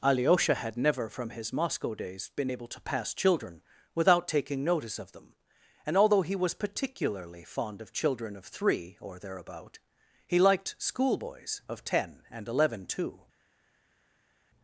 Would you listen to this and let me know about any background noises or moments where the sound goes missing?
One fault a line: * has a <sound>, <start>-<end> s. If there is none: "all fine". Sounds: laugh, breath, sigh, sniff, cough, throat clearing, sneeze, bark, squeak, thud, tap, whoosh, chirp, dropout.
all fine